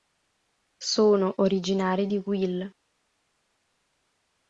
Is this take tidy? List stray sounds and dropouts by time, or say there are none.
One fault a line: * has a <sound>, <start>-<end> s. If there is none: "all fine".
all fine